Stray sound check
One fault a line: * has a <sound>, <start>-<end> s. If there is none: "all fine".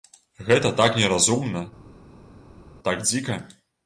all fine